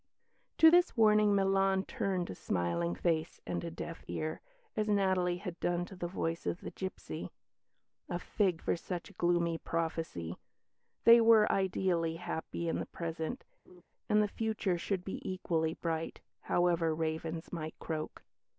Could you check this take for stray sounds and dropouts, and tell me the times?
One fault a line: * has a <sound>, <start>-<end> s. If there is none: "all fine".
* has a laugh, 13.7-13.8 s